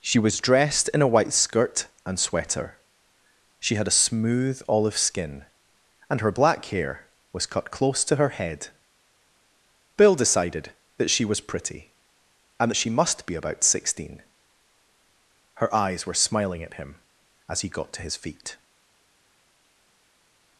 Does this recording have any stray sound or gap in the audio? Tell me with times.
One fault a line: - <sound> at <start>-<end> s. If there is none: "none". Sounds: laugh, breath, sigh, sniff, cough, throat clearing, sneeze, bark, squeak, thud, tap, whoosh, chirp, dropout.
none